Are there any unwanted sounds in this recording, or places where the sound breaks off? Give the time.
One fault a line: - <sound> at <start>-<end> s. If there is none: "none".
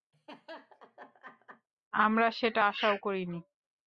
- laugh at 0.1-1.7 s